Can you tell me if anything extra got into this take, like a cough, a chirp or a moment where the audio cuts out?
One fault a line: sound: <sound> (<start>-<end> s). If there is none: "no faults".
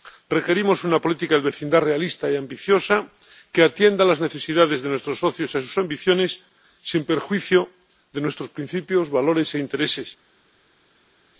no faults